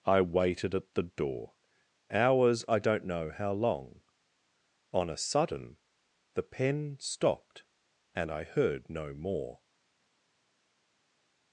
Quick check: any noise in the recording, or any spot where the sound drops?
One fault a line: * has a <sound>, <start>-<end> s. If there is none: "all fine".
all fine